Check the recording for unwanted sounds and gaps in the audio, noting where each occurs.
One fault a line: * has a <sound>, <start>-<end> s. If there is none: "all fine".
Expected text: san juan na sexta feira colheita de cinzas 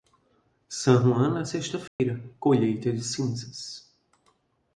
* has a dropout, 1.9-2.0 s